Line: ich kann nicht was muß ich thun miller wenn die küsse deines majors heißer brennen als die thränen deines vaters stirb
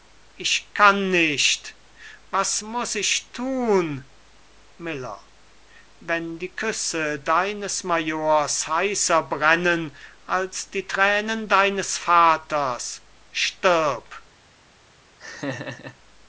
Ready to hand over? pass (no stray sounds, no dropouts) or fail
fail